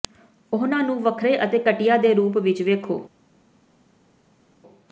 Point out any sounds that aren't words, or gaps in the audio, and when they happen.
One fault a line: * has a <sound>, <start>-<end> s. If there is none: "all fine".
all fine